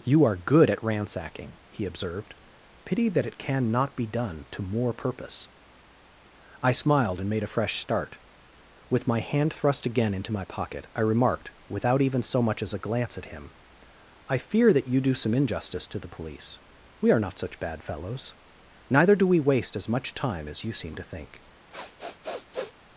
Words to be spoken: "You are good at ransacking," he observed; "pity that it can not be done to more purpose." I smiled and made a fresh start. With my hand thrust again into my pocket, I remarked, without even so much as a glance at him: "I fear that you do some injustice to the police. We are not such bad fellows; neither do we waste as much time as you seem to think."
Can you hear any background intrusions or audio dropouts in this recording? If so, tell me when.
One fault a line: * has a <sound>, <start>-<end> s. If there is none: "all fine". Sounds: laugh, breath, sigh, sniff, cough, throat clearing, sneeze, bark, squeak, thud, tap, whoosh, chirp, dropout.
* has a sniff, 21.7-22.7 s